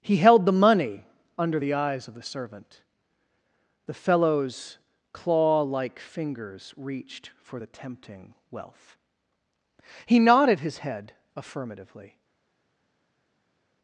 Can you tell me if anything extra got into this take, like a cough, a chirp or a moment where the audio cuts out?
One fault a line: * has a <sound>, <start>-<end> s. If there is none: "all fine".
all fine